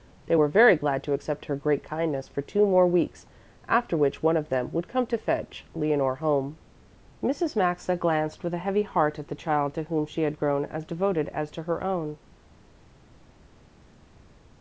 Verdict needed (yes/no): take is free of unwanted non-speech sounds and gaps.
yes